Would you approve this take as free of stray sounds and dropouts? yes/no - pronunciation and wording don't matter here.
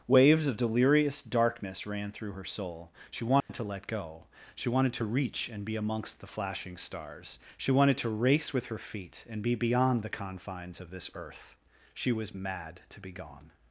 no